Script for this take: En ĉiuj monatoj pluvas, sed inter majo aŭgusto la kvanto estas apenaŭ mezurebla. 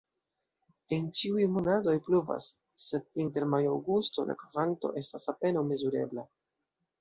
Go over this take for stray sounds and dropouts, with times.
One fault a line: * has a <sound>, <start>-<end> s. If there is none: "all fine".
all fine